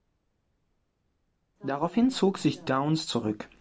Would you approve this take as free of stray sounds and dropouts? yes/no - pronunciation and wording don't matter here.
yes